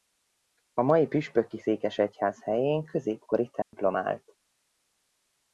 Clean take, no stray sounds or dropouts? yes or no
no